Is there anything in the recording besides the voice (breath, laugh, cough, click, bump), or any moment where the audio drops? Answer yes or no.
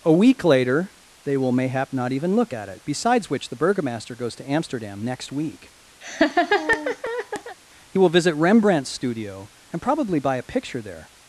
yes